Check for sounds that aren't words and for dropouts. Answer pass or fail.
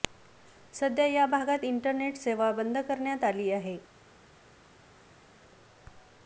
pass